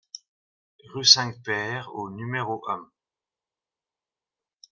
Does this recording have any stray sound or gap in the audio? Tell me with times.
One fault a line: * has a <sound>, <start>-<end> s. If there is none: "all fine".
all fine